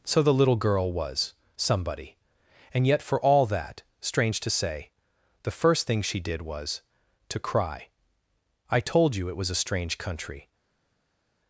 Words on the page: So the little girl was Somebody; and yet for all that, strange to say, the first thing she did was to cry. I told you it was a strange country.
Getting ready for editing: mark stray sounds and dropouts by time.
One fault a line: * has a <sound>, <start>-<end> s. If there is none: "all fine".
all fine